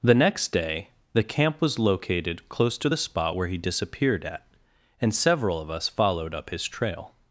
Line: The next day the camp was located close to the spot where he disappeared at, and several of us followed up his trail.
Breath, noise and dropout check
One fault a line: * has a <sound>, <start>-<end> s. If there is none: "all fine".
all fine